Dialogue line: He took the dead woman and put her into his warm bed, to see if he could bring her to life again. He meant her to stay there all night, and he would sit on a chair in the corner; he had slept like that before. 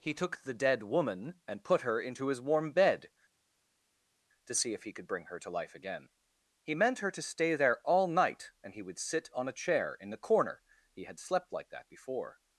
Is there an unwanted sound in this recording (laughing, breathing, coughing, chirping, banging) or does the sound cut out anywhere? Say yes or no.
no